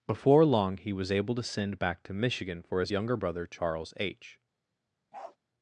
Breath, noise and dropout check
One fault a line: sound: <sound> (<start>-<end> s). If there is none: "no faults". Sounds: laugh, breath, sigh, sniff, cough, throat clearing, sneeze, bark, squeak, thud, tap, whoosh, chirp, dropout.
sound: bark (5.1-5.4 s)